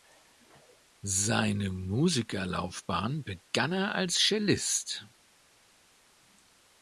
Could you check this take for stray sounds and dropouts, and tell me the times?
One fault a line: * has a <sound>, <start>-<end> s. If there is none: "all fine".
all fine